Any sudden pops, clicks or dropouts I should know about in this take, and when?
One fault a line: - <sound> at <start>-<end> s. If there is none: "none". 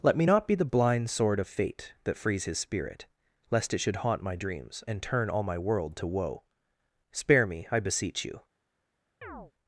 - chirp at 9.2-9.5 s